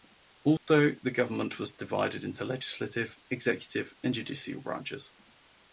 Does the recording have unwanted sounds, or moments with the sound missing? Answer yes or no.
yes